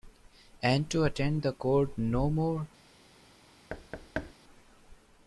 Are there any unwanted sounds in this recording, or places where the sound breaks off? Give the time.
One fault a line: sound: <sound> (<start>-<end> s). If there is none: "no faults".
sound: thud (3.7-4.3 s)